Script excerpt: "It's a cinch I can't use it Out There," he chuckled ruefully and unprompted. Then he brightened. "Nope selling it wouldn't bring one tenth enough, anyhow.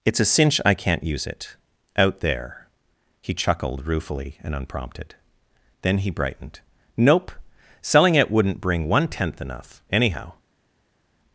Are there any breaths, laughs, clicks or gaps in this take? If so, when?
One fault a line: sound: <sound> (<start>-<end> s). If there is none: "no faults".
no faults